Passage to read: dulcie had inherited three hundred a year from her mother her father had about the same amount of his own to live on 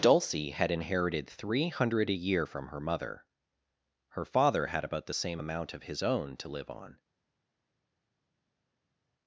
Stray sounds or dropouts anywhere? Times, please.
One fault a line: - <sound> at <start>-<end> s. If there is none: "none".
none